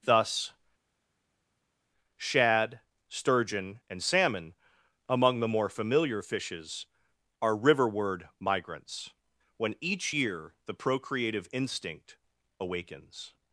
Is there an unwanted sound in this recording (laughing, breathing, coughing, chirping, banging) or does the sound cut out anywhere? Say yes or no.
no